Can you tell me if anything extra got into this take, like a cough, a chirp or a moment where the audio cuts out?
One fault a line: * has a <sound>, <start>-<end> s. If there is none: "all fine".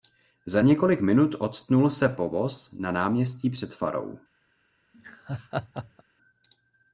* has a laugh, 4.9-6.0 s